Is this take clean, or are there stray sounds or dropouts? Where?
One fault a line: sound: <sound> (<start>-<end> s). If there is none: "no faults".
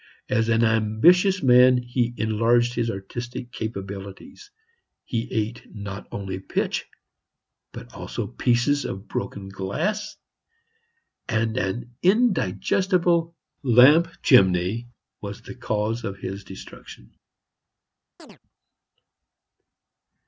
sound: chirp (18.2-18.4 s)